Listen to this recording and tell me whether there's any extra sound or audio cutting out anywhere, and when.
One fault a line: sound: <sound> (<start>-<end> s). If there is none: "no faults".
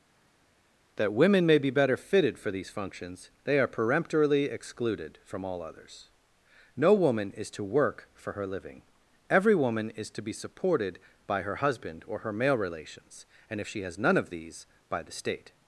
no faults